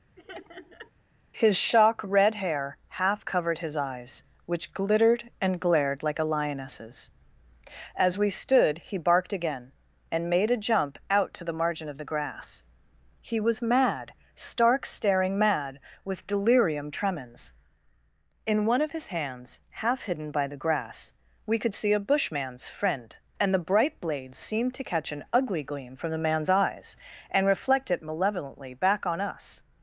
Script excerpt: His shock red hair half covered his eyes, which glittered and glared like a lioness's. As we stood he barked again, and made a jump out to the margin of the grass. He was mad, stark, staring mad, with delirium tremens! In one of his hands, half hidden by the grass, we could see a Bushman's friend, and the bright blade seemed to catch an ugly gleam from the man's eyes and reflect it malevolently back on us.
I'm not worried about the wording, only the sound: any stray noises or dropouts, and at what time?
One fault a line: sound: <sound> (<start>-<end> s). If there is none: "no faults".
sound: laugh (0.2-0.9 s)